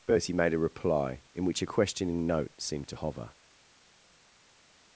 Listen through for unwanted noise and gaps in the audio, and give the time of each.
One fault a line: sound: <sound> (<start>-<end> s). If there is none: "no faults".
no faults